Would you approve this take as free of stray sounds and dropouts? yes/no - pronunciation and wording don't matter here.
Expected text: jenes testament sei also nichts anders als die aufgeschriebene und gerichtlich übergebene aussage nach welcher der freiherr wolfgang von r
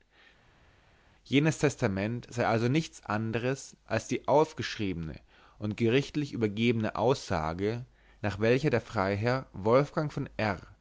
yes